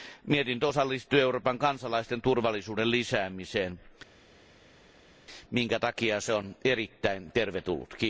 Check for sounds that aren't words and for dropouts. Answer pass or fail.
pass